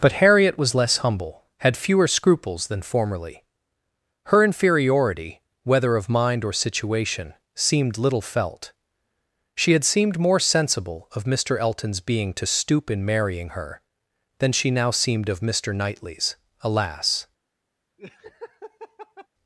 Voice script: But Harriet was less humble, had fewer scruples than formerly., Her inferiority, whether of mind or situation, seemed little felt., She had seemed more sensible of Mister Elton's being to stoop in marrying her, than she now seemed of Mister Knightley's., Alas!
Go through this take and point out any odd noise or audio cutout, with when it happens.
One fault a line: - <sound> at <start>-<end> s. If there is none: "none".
- laugh at 18.0-19.3 s